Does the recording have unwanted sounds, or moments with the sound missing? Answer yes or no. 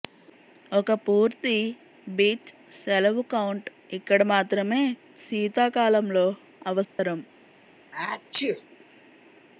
yes